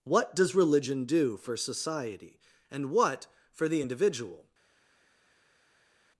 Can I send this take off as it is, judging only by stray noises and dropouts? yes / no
yes